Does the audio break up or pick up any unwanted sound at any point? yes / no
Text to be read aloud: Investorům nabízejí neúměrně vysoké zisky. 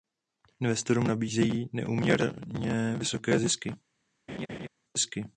yes